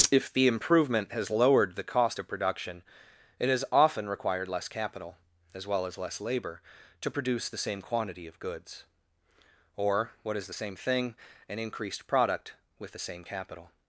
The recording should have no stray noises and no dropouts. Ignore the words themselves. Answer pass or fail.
pass